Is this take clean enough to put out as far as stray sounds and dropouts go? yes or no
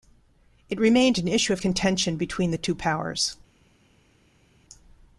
yes